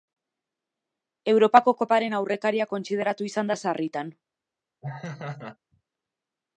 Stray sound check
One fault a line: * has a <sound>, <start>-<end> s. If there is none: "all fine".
* has a laugh, 4.8-5.6 s